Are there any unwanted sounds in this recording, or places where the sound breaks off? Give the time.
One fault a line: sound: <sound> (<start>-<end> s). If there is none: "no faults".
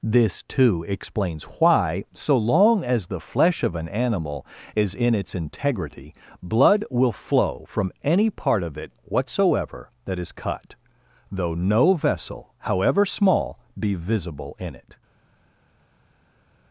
no faults